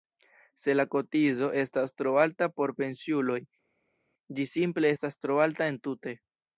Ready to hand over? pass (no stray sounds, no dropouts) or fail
pass